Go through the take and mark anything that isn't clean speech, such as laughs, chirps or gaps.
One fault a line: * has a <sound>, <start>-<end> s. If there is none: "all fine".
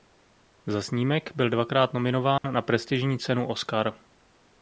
* has a dropout, 2.4-2.4 s